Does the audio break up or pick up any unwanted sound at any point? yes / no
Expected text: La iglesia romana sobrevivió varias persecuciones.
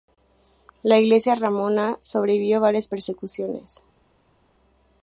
no